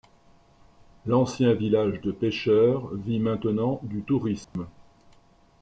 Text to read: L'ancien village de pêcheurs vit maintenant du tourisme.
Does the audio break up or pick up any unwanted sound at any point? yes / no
yes